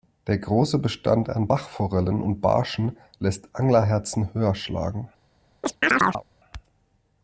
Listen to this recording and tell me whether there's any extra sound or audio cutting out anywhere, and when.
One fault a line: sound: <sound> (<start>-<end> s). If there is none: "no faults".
sound: chirp (5.6-6.2 s)